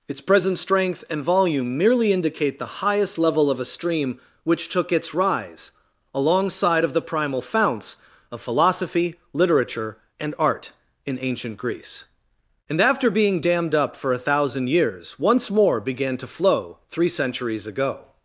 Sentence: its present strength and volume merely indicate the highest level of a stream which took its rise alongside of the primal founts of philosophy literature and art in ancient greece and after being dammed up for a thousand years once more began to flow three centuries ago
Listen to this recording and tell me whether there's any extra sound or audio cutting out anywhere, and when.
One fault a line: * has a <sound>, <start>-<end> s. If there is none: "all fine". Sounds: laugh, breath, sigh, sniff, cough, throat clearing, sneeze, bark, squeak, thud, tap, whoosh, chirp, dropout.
all fine